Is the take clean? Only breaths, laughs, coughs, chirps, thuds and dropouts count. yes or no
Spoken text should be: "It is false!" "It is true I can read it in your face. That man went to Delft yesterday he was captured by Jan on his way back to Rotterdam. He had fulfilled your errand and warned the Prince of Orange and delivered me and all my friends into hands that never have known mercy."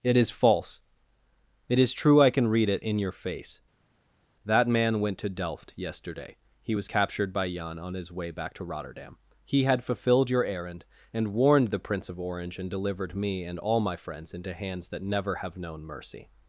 yes